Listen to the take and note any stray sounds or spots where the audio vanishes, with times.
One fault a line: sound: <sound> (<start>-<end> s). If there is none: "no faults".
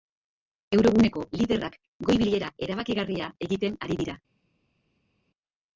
no faults